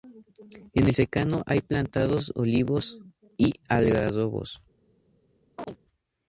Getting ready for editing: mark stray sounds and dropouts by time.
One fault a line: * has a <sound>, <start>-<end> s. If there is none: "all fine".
* has a chirp, 5.6-5.8 s